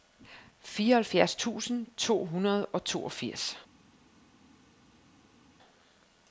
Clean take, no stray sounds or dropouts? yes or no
yes